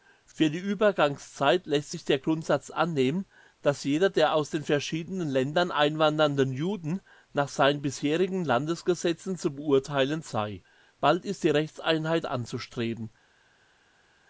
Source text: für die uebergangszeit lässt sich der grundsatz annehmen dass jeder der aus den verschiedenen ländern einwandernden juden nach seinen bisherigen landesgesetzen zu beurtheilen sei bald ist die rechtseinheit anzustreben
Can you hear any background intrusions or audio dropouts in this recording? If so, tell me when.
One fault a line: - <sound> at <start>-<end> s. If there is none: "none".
none